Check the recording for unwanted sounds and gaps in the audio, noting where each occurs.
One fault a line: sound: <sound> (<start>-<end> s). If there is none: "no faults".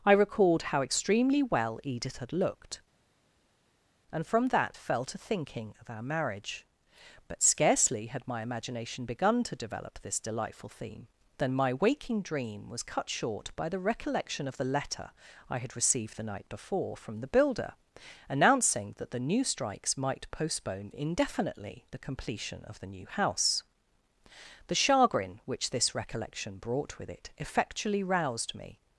no faults